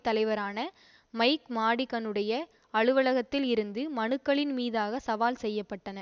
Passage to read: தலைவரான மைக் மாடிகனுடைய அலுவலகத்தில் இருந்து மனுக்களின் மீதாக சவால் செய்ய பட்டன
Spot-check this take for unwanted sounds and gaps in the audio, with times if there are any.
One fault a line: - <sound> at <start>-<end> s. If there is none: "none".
none